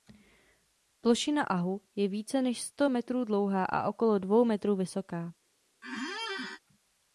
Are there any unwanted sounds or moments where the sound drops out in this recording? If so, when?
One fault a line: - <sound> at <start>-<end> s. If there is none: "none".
- squeak at 5.8-6.6 s